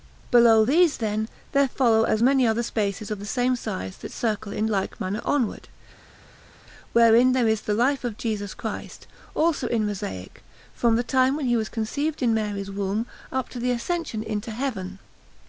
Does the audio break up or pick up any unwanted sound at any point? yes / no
no